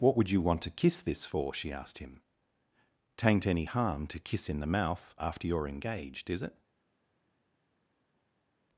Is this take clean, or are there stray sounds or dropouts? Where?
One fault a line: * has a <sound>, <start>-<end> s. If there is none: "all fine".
all fine